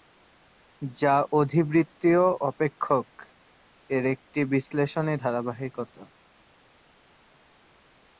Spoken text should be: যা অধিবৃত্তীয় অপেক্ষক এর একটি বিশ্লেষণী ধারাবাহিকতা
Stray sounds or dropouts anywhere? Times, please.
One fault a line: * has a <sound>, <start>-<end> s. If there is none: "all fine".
all fine